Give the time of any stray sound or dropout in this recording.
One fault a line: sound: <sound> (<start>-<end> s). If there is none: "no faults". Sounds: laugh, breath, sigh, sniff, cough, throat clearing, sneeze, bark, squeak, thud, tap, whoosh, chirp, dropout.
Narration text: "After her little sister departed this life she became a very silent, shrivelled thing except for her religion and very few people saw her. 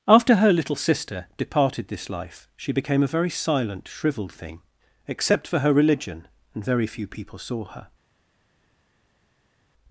no faults